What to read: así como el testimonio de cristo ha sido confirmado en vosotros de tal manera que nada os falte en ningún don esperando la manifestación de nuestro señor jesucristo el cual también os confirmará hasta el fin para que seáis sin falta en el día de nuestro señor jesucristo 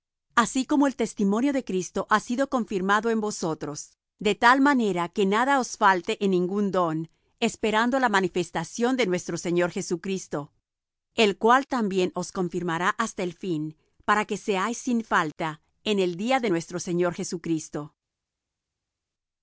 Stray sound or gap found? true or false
false